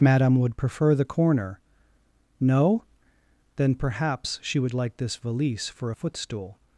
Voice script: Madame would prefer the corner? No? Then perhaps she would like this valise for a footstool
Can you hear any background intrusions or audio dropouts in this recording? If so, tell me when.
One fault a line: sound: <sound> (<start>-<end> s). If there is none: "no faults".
no faults